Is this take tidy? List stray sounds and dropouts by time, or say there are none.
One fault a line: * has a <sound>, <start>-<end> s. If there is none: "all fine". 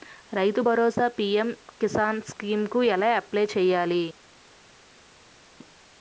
all fine